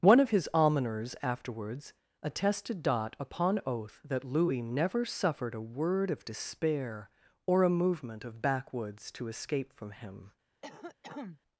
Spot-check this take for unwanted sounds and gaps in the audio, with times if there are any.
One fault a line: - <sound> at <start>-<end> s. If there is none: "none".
- cough at 10.6-11.4 s